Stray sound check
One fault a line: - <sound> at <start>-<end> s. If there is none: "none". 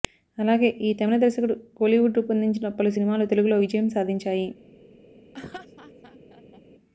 - laugh at 5.3-6.6 s